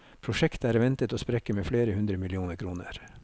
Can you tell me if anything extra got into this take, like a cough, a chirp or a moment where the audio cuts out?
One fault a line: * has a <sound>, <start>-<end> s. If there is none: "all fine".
all fine